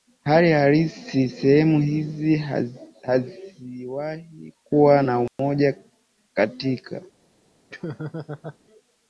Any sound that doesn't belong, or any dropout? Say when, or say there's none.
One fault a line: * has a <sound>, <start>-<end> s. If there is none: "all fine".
* has a dropout, 5.3-5.4 s
* has a laugh, 7.7-8.6 s